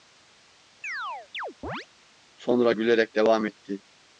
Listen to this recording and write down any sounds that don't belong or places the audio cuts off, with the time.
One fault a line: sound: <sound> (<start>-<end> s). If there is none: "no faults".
sound: chirp (0.8-1.9 s)